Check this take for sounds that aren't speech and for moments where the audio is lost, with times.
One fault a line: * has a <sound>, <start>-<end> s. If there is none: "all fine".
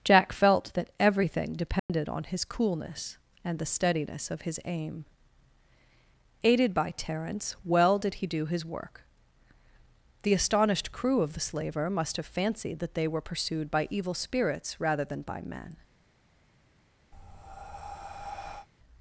* has a dropout, 1.8-1.9 s
* has a breath, 17.1-18.7 s